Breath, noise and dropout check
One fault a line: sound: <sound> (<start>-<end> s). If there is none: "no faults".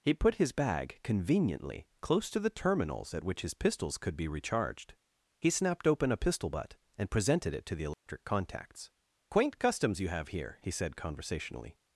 sound: dropout (7.9-8.1 s)